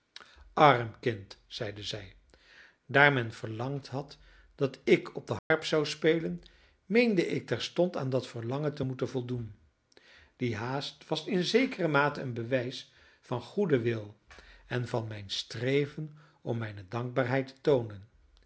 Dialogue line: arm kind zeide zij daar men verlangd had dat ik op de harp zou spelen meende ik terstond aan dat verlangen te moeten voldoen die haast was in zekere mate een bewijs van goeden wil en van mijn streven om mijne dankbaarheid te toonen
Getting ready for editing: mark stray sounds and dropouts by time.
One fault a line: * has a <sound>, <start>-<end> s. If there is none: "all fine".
* has a dropout, 5.4-5.5 s